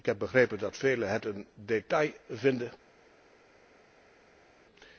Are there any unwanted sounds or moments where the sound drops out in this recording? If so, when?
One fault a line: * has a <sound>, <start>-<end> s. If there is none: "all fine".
all fine